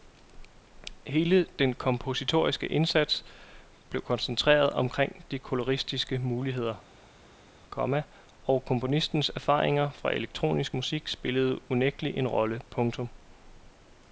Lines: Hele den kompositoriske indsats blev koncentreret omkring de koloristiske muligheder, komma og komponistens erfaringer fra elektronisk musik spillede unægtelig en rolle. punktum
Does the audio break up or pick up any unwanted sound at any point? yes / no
no